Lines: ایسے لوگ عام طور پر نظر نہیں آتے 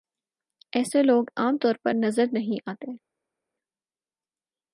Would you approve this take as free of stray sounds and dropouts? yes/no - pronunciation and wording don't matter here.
yes